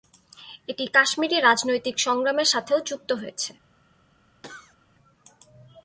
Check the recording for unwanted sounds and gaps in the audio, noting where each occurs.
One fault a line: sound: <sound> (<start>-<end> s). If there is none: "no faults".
sound: cough (4.4-4.8 s)